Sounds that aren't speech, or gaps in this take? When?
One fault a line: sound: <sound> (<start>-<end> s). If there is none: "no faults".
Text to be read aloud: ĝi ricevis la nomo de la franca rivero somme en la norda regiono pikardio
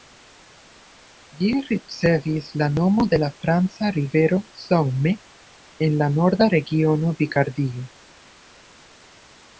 no faults